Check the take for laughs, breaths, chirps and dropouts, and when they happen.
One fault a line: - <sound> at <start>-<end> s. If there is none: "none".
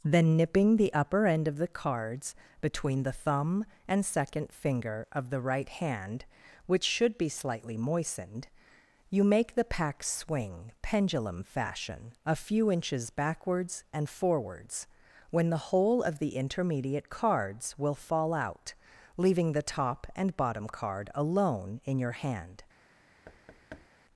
- thud at 23.3-23.9 s